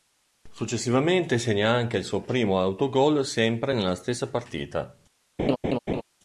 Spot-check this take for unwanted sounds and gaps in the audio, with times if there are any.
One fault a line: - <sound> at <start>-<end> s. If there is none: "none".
- laugh at 5.4-6.0 s